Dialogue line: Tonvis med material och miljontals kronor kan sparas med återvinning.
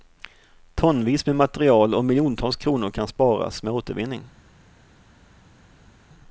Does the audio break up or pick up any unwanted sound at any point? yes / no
no